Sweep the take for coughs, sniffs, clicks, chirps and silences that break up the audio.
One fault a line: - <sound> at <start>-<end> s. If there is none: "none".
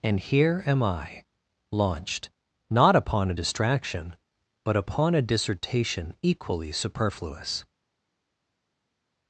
none